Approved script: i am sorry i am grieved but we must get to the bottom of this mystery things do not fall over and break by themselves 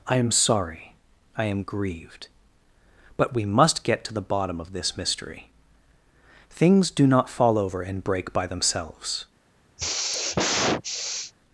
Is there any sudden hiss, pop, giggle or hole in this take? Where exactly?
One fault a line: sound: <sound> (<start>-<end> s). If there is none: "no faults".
sound: sigh (9.8-11.3 s)